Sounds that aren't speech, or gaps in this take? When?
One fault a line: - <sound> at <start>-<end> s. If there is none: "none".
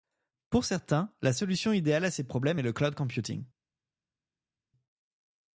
none